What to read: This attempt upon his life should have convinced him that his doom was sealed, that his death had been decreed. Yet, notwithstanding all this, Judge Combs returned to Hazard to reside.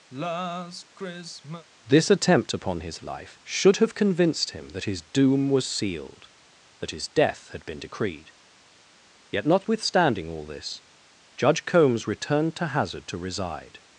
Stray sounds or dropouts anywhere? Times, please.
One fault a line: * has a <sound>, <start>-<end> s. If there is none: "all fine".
* has a sigh, 0.1-1.7 s